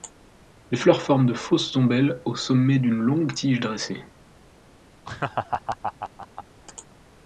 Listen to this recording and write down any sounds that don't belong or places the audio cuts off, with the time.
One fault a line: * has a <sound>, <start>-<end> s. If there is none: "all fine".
* has a laugh, 5.0-6.4 s